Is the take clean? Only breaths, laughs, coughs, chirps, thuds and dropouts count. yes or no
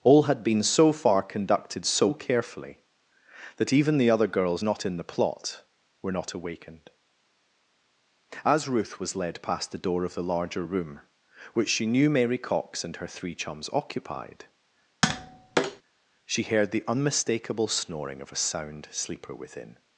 no